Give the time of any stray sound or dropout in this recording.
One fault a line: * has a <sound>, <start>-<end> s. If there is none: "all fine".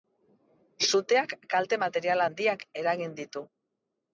all fine